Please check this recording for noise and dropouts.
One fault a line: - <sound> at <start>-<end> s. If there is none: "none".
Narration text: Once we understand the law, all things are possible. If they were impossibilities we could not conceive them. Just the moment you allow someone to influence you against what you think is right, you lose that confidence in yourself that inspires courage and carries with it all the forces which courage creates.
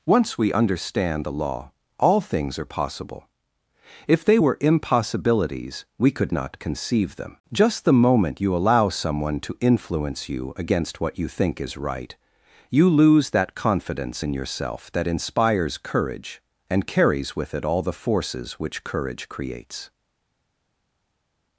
none